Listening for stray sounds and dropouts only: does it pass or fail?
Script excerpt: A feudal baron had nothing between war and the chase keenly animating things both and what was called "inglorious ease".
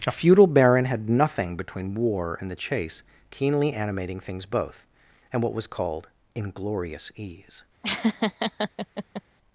fail